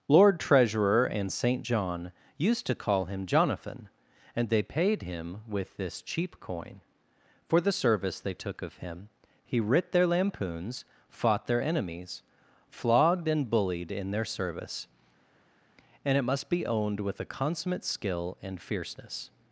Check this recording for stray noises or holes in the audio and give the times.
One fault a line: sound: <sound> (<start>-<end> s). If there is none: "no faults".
no faults